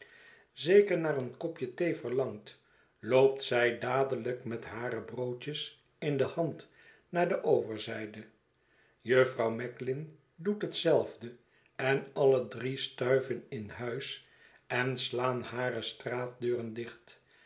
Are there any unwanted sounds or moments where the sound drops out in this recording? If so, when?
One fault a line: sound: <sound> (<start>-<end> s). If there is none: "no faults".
no faults